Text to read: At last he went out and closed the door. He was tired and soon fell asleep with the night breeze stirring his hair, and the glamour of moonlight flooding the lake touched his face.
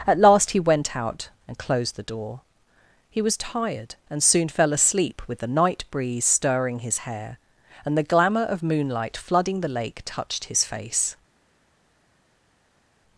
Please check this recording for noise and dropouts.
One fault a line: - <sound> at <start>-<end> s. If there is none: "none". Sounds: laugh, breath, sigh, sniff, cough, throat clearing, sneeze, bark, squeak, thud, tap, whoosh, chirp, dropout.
none